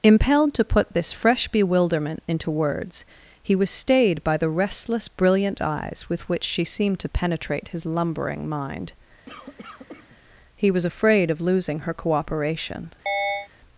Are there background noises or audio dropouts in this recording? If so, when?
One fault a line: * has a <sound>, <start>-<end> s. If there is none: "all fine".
* has a cough, 9.3-10.2 s
* has a chirp, 13.1-13.5 s